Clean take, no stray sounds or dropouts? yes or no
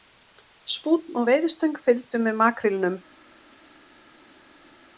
yes